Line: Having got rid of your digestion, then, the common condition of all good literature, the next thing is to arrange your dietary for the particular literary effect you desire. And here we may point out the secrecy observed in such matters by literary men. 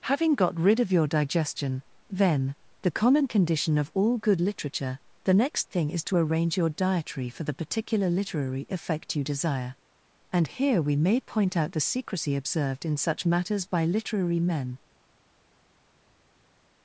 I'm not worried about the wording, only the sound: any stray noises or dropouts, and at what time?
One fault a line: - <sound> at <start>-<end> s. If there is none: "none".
none